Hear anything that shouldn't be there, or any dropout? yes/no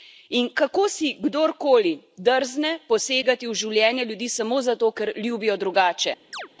yes